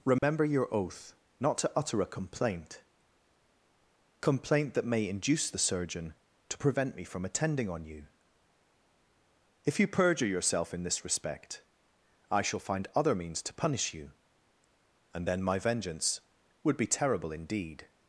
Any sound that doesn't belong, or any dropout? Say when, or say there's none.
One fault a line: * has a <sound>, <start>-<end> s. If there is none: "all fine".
* has a dropout, 0.2-0.2 s